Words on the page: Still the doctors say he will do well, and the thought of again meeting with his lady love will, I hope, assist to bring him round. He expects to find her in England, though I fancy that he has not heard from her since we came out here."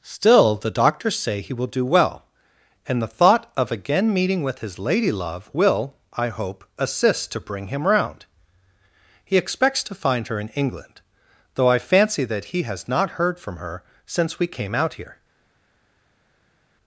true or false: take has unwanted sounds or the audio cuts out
false